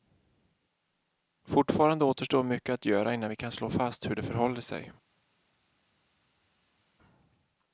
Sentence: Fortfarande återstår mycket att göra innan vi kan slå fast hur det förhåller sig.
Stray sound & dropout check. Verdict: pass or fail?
pass